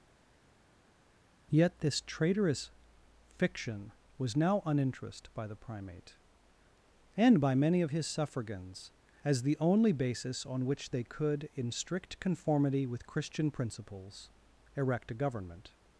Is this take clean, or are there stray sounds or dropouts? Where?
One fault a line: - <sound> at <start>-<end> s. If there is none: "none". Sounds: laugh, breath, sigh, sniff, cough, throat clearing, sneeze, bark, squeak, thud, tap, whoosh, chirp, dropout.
none